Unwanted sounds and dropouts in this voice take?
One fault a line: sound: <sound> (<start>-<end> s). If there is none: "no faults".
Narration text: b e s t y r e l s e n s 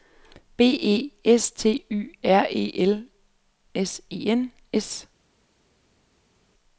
no faults